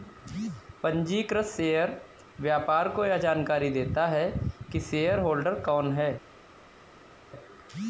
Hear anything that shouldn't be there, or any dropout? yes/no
no